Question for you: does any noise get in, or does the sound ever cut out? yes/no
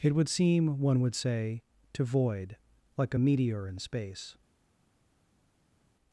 no